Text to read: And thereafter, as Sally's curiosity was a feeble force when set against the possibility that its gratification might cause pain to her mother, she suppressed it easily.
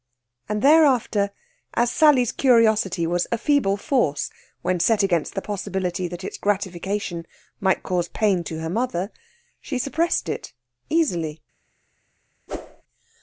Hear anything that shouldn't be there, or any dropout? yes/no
yes